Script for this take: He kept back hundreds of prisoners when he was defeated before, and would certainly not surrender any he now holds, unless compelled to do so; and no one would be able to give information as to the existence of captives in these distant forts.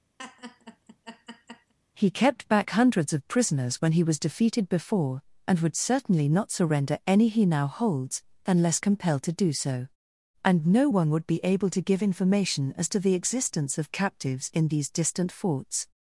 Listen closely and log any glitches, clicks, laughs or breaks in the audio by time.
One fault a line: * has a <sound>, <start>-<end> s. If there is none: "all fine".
* has a laugh, 0.2-1.7 s